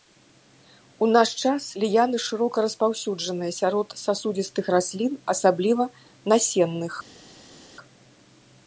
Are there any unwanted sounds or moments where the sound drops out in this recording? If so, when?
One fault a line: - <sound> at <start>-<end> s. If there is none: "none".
none